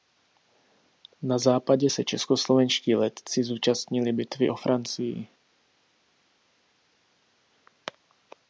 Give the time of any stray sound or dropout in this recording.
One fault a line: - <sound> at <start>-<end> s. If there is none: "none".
none